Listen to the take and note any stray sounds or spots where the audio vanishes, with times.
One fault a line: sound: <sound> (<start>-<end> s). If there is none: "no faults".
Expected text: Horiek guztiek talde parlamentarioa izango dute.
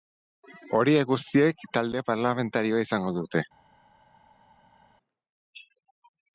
no faults